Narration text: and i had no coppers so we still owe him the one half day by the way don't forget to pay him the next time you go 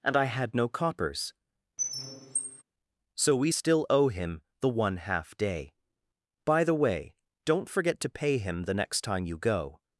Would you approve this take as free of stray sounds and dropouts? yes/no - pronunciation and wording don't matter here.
no